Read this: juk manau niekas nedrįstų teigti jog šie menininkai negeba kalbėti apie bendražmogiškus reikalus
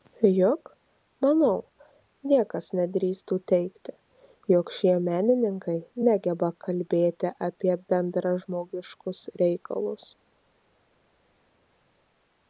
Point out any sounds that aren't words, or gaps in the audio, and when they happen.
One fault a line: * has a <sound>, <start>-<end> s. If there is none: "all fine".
all fine